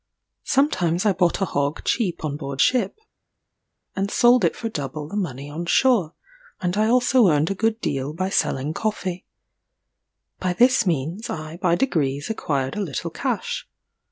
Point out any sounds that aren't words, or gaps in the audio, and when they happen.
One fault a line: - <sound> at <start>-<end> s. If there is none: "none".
none